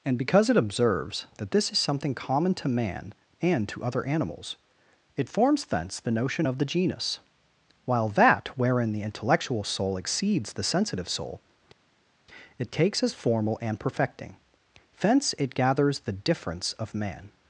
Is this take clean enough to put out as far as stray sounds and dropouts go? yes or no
yes